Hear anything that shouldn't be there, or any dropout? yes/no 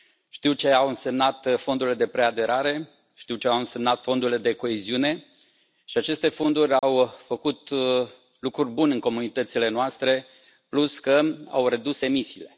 yes